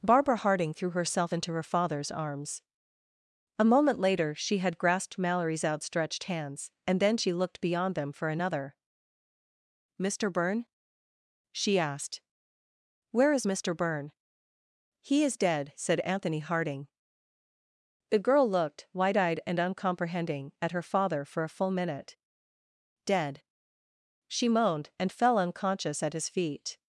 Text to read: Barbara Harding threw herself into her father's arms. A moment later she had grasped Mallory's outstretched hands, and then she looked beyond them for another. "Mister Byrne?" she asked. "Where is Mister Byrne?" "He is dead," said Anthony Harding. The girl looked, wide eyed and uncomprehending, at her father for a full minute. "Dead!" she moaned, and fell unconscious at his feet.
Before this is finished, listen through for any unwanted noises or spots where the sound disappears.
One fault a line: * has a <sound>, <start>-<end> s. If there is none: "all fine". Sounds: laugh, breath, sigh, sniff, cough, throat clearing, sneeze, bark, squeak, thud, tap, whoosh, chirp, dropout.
all fine